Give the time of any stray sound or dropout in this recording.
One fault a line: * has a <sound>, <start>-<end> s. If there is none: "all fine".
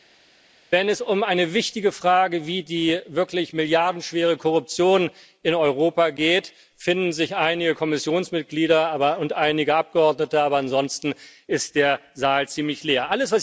all fine